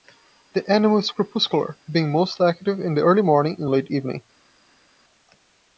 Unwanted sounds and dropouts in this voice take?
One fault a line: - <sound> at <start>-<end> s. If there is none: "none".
none